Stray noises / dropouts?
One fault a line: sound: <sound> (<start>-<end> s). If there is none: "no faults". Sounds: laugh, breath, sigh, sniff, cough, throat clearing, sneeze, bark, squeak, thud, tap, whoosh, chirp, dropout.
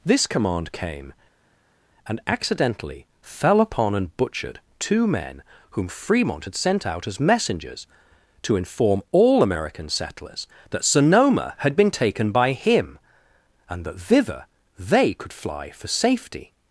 no faults